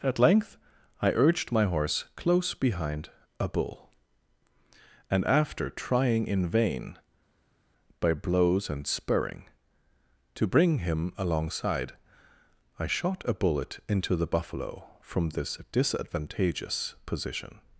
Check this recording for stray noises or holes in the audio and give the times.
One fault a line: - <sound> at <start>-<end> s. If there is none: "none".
none